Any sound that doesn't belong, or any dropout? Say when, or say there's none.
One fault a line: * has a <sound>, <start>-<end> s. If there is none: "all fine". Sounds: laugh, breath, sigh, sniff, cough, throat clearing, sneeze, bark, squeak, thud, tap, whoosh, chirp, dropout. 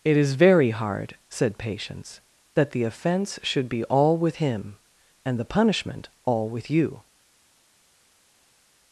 all fine